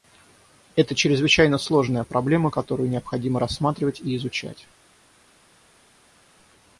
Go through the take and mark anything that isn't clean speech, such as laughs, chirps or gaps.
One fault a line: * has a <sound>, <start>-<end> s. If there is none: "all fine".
all fine